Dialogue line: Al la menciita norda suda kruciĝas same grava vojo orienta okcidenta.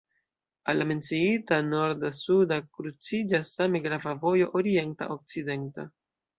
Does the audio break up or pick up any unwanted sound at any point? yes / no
no